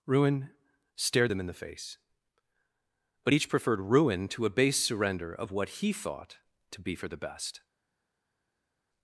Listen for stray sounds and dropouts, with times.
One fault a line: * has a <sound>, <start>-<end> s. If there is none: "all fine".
all fine